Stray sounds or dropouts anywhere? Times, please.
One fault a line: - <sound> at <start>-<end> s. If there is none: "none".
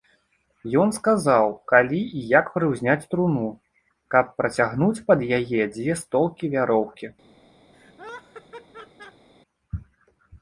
- laugh at 7.7-9.3 s